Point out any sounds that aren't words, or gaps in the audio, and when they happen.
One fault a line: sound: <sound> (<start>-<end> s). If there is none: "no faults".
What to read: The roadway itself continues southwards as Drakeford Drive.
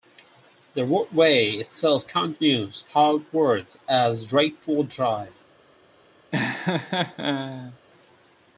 sound: laugh (6.3-7.8 s)